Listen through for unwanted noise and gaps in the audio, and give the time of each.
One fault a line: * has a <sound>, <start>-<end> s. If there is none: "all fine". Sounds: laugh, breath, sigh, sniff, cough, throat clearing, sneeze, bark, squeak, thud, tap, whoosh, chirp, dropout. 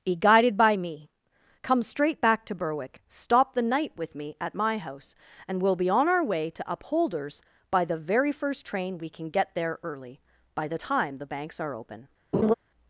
* has a laugh, 12.3-12.5 s